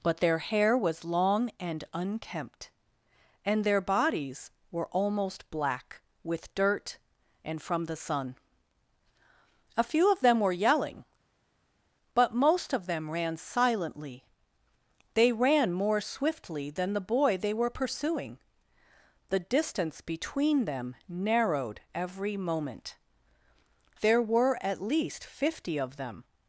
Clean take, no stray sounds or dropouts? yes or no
yes